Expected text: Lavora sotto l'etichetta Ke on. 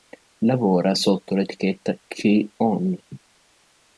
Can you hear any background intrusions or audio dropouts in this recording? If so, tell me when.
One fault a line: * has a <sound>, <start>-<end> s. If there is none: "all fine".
* has a laugh, 3.1-3.2 s